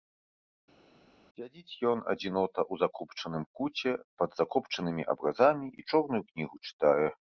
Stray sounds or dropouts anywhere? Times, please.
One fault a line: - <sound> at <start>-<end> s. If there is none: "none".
none